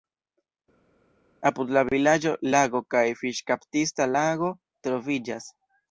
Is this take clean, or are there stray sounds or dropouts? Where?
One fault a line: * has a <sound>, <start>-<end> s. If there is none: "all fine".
all fine